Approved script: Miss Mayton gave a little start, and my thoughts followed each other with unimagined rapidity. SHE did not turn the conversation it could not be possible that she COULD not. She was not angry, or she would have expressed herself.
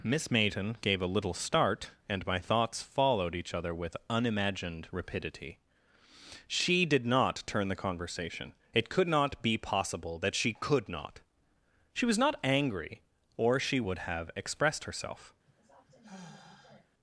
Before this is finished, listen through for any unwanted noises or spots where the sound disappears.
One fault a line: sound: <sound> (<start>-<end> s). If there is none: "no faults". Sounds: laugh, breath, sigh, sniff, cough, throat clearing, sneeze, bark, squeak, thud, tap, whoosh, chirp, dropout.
sound: sigh (15.5-16.9 s)